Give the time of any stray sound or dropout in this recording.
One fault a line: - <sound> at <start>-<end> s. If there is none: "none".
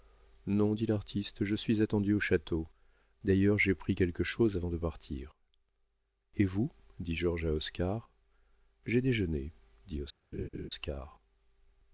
- laugh at 10.3-10.7 s